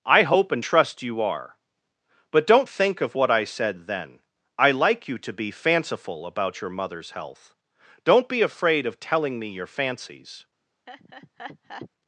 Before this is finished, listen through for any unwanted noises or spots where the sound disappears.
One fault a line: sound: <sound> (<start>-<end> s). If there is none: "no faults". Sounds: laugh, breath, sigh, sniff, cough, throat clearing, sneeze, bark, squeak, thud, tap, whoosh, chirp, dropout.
sound: laugh (10.9-11.9 s)